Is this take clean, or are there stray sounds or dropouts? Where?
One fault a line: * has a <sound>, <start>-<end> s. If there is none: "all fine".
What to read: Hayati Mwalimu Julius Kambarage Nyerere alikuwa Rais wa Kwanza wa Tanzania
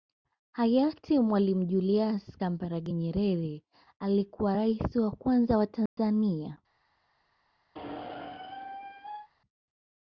* has a dropout, 5.9-6.0 s
* has a squeak, 7.7-9.3 s